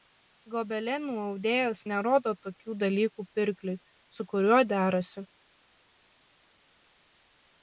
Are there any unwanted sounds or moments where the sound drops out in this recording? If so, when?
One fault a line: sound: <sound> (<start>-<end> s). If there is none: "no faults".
no faults